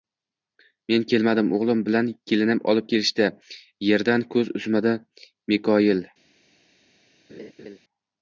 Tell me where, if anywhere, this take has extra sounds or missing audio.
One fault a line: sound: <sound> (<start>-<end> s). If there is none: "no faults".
sound: laugh (7.3-7.8 s)